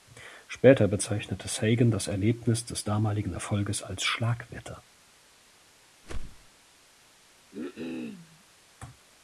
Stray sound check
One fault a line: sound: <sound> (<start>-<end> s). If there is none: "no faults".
sound: whoosh (6.0-6.5 s)
sound: cough (7.5-8.4 s)